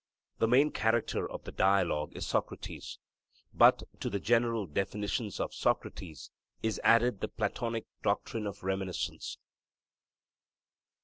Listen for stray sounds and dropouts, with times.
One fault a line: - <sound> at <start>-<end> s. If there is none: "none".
none